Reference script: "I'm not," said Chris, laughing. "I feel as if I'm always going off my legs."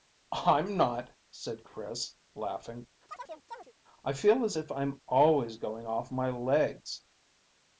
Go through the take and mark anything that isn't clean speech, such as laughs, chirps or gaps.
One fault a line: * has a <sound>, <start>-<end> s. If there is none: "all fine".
* has a chirp, 3.1-3.7 s